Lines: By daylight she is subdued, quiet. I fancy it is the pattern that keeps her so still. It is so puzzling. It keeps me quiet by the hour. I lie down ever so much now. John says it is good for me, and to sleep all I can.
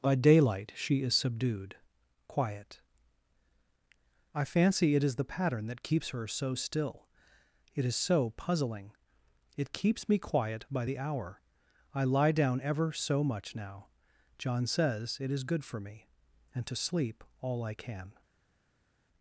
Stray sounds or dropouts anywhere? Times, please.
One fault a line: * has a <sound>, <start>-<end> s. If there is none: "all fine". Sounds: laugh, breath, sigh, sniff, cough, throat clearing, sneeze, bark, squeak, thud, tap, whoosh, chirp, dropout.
all fine